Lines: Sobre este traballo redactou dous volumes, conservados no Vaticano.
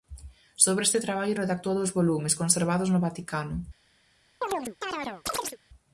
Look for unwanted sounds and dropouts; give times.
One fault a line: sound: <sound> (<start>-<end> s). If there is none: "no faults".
sound: chirp (4.4-5.6 s)